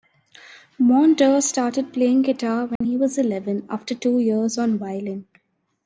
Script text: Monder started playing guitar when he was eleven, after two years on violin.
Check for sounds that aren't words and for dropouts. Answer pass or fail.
fail